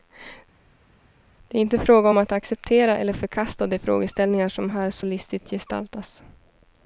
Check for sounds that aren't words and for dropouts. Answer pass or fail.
pass